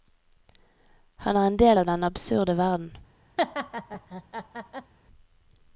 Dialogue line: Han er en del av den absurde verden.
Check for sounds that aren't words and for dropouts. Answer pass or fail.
fail